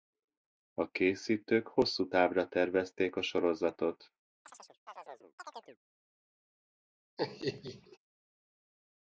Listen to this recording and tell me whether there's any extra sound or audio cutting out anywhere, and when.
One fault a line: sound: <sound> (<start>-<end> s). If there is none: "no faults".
sound: chirp (4.4-5.8 s)
sound: laugh (7.2-8.0 s)